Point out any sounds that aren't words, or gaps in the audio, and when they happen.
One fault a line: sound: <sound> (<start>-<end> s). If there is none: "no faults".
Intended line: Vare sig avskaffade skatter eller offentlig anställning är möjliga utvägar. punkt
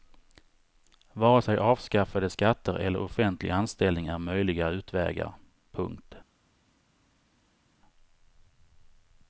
no faults